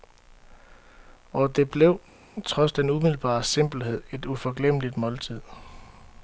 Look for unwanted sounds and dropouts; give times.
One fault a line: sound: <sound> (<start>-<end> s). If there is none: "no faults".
no faults